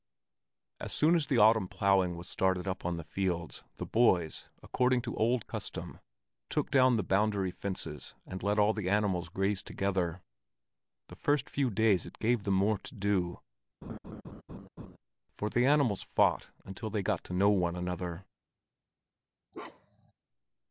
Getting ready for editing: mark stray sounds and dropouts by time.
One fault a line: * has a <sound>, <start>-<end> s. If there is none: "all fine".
* has a laugh, 13.8-15.0 s
* has a bark, 19.5-20.1 s